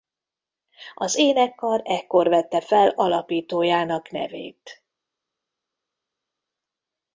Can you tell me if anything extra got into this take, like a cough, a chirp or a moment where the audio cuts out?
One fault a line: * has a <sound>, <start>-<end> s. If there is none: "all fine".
all fine